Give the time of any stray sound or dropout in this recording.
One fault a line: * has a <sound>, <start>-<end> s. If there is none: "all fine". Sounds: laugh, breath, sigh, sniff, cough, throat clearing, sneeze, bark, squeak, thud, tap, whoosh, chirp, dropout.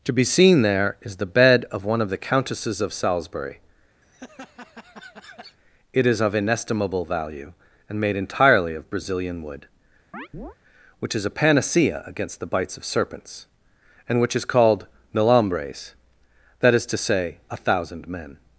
* has a laugh, 4.0-5.6 s
* has a chirp, 10.1-10.6 s